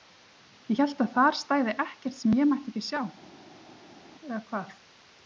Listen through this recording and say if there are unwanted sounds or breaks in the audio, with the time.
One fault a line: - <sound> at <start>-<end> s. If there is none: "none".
none